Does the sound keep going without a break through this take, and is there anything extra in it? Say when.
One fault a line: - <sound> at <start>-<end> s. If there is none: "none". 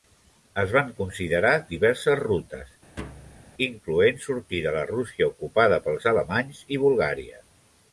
- thud at 3.0-3.5 s